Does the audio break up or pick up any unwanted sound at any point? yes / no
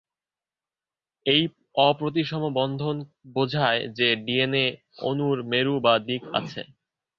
no